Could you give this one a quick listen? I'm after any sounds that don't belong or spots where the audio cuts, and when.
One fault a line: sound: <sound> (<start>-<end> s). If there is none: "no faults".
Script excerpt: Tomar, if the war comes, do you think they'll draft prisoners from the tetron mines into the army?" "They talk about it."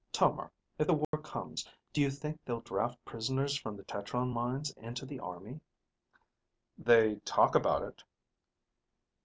sound: dropout (1.0-1.1 s)